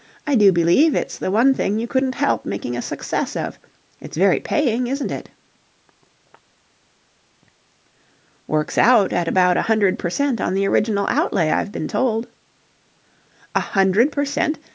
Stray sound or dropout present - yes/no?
no